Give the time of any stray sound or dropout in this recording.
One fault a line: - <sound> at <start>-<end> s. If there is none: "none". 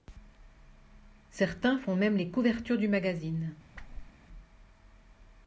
- whoosh at 3.7-4.1 s